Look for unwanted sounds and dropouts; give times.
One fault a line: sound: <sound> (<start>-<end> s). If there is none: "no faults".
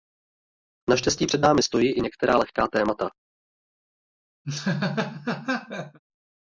sound: laugh (4.4-6.0 s)